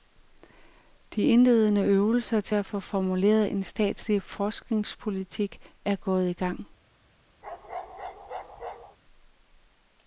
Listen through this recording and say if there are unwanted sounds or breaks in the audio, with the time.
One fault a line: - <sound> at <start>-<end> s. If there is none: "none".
- bark at 7.4-9.0 s